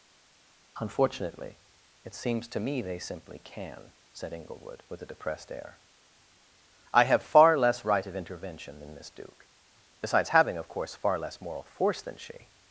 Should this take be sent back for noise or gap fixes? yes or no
no